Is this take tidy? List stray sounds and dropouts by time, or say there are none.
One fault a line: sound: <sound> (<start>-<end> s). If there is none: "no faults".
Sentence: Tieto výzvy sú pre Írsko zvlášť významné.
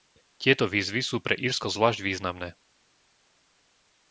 no faults